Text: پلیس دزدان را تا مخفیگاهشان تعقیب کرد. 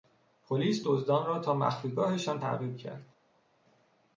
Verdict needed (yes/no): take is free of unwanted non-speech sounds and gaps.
yes